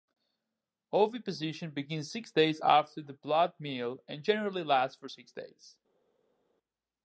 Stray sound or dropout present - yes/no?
no